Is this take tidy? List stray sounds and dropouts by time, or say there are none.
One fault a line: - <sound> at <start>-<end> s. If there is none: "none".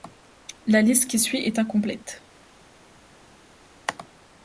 none